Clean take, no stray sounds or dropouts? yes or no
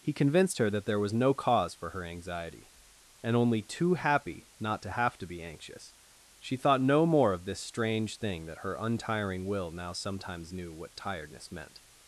yes